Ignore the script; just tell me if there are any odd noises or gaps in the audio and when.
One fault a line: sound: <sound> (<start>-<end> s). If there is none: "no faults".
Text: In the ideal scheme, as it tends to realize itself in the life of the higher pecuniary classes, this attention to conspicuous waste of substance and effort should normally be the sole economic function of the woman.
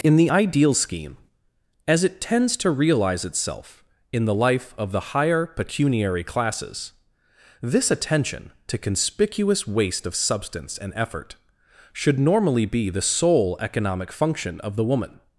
no faults